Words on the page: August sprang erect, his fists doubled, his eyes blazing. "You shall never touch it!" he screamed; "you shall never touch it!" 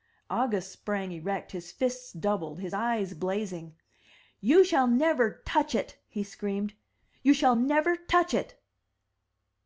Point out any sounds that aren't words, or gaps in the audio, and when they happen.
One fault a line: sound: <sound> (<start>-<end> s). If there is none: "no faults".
no faults